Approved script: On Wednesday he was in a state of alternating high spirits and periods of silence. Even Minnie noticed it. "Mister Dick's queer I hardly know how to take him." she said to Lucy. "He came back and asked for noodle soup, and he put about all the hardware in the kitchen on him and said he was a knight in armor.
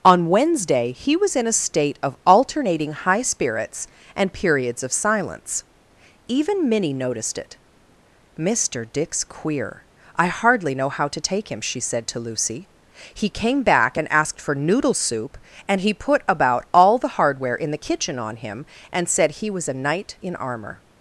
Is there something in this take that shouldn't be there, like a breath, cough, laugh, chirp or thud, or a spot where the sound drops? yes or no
no